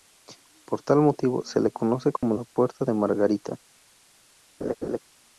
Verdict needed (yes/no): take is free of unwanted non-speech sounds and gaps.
no